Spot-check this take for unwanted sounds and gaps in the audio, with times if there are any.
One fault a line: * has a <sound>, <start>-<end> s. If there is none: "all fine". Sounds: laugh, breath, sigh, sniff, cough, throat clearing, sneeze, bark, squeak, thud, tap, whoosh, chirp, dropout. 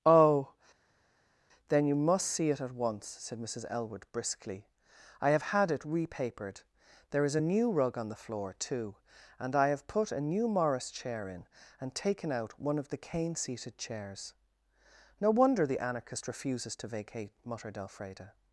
all fine